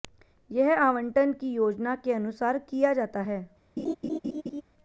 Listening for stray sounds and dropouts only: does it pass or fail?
fail